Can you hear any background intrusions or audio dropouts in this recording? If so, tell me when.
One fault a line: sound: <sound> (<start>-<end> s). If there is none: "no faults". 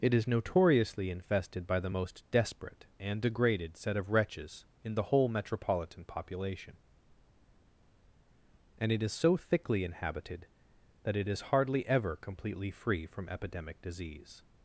no faults